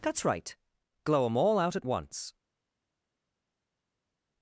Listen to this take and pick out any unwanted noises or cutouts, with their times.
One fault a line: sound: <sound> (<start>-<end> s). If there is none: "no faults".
no faults